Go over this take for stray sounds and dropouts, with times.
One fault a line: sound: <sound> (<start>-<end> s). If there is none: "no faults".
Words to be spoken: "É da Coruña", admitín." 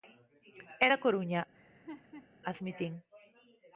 sound: laugh (1.5-2.3 s)